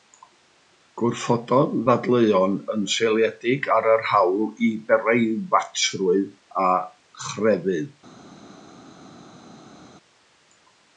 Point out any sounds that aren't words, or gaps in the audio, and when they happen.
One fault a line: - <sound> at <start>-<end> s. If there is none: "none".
none